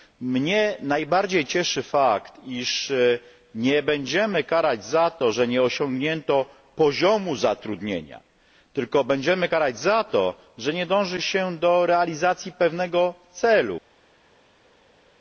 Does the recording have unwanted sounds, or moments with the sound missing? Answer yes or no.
no